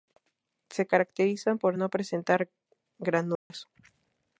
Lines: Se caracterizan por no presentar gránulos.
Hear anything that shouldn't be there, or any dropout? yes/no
yes